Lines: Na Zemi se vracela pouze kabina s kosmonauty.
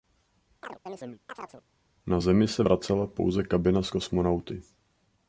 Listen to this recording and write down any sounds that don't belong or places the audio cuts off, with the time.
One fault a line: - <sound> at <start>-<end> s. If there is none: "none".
- chirp at 0.6-1.6 s